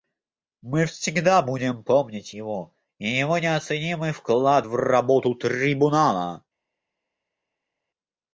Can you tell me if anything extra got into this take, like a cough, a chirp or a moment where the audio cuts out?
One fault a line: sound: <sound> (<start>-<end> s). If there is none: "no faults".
no faults